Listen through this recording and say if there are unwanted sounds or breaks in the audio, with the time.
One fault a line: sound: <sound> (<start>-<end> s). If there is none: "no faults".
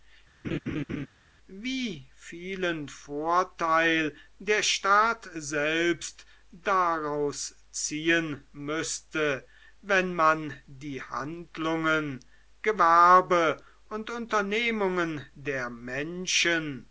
sound: laugh (0.4-1.1 s)